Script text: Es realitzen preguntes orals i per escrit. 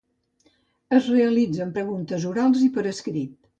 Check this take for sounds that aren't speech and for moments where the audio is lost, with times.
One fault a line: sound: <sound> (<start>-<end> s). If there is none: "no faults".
no faults